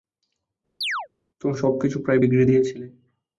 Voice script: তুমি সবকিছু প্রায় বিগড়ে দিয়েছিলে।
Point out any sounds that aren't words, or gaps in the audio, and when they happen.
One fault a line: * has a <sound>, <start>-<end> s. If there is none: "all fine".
* has a chirp, 0.8-1.1 s